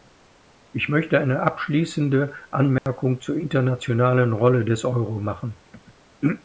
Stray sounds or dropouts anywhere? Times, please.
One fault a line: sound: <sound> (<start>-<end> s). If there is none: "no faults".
sound: dropout (2.8-2.9 s)